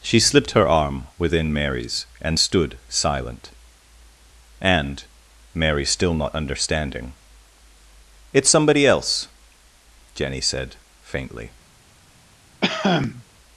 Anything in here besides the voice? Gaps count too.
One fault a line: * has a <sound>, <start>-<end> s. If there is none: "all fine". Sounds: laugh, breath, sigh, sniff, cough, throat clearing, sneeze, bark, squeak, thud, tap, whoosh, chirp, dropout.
* has a cough, 12.6-13.2 s